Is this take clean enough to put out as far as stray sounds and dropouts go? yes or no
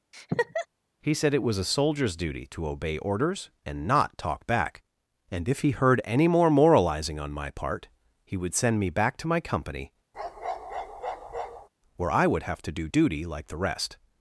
no